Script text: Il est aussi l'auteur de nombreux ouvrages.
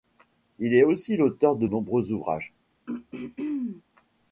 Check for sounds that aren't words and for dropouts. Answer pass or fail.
fail